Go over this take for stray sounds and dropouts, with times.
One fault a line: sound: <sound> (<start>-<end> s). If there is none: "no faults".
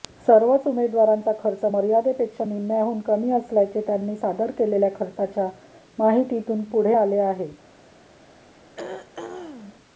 sound: throat clearing (8.7-9.8 s)